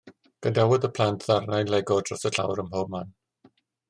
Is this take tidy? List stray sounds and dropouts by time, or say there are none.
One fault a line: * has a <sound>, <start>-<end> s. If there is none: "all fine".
all fine